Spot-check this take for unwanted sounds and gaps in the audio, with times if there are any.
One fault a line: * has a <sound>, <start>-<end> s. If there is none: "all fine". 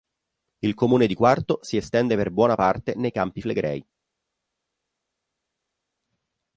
all fine